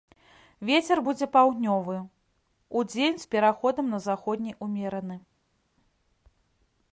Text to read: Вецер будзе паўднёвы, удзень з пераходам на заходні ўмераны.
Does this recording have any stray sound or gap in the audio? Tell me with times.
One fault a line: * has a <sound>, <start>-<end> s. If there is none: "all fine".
all fine